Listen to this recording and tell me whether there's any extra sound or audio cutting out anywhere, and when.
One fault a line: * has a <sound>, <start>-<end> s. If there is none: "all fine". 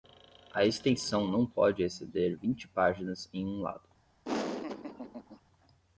* has a laugh, 4.2-5.4 s